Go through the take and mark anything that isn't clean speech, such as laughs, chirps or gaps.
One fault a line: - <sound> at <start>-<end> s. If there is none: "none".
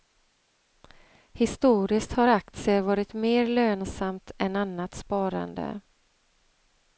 none